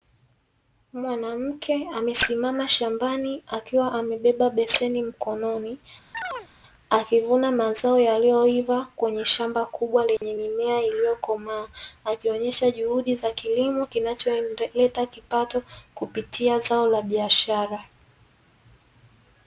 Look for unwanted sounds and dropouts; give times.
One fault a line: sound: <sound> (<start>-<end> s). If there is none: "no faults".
sound: chirp (6.1-6.5 s)
sound: dropout (10.2-10.2 s)